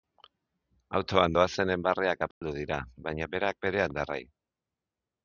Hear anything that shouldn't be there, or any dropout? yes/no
yes